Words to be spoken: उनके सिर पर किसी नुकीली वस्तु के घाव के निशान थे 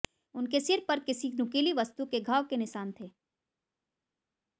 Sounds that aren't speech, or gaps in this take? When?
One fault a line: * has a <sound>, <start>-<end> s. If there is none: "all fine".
all fine